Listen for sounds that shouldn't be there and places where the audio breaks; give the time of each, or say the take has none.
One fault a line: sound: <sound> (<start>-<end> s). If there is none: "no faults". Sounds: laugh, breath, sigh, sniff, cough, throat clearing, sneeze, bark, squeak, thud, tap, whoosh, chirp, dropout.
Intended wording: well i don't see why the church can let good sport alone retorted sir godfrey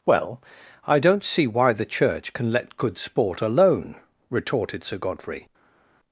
no faults